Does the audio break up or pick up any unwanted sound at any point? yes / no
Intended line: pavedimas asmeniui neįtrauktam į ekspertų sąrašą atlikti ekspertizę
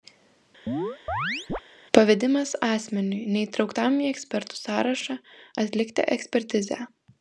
yes